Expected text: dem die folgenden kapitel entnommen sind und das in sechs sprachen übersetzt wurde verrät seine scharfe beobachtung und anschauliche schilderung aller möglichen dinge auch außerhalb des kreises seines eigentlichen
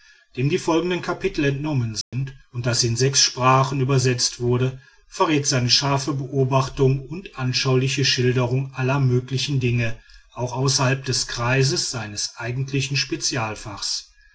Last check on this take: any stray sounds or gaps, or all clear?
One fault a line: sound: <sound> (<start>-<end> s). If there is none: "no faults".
sound: dropout (2.0-2.1 s)